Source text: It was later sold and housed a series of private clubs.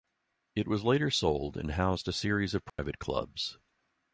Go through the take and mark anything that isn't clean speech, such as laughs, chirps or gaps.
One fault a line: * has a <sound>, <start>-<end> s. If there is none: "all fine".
* has a dropout, 2.7-2.8 s